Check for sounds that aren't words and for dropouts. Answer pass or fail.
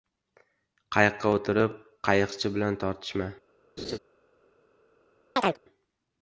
fail